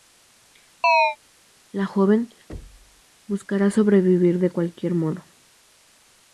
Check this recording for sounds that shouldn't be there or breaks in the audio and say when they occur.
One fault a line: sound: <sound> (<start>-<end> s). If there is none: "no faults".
sound: chirp (0.8-1.2 s)
sound: thud (2.5-3.0 s)